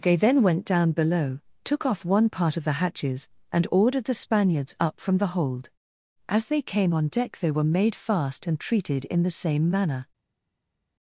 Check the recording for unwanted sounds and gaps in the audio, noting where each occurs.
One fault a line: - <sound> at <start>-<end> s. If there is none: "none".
none